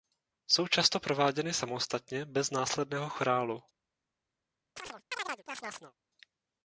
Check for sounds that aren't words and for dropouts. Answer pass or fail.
fail